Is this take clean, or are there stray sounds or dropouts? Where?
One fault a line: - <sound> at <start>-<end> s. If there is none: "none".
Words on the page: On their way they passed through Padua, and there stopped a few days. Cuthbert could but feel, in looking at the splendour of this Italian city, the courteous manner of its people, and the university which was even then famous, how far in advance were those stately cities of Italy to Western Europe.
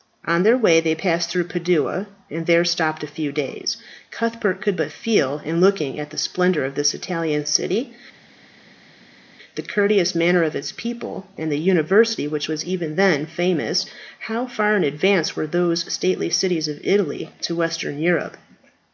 none